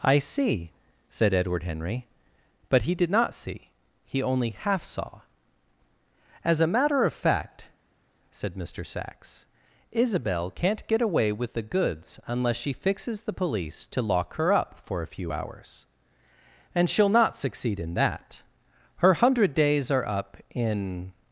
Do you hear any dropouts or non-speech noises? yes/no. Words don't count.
no